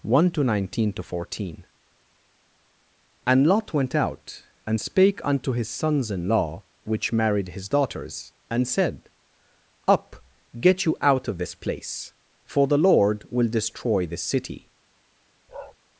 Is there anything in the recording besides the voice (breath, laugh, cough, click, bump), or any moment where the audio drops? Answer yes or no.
yes